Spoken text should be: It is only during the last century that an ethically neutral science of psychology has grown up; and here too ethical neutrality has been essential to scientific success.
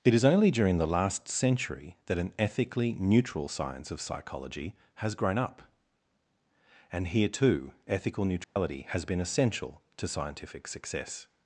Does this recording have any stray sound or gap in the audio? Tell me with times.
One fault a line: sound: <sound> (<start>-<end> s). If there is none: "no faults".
sound: dropout (8.4-8.6 s)